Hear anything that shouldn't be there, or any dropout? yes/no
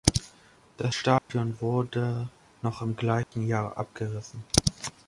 yes